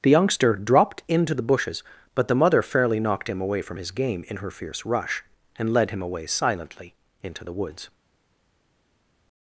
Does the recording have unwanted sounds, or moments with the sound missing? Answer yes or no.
no